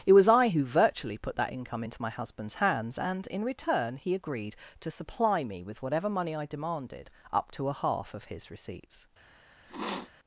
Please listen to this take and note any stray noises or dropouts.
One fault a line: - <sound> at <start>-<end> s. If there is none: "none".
- sniff at 9.7-10.1 s